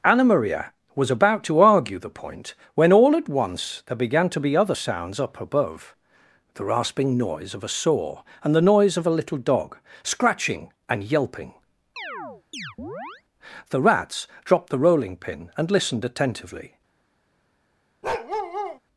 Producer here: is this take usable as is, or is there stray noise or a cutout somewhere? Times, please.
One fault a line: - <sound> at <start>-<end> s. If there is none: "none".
- chirp at 12.0-13.2 s
- bark at 18.0-18.8 s